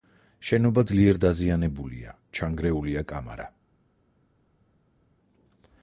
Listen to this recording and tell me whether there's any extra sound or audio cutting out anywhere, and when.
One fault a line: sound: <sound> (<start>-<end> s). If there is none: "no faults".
no faults